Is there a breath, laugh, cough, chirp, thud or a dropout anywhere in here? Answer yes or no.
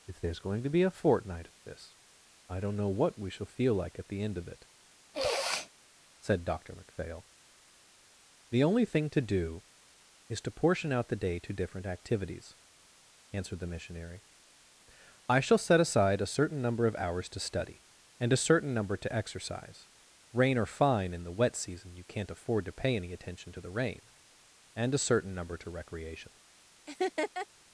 yes